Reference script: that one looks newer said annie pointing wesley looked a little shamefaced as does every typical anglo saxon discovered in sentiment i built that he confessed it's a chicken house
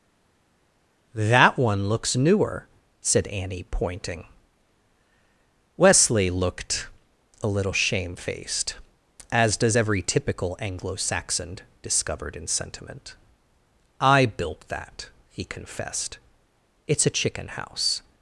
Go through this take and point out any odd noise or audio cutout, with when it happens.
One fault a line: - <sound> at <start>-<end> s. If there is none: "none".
none